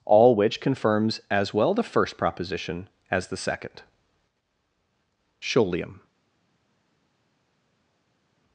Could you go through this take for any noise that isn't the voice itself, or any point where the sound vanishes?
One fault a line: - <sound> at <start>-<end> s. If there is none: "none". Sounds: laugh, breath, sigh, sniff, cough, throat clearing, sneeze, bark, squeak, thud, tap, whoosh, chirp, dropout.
none